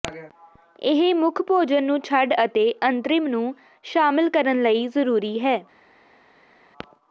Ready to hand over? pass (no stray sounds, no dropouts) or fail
pass